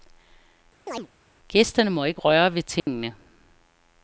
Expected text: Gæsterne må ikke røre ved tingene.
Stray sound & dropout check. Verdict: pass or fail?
fail